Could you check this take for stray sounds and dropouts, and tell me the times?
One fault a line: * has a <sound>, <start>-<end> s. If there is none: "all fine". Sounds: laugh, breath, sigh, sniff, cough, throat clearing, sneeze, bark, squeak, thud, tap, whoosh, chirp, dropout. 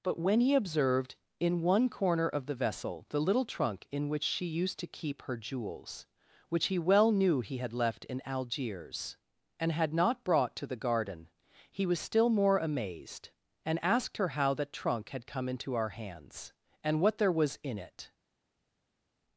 all fine